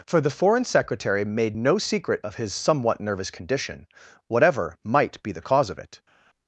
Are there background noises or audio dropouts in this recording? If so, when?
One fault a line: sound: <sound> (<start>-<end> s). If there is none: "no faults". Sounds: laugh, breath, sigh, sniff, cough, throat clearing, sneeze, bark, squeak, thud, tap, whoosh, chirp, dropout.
no faults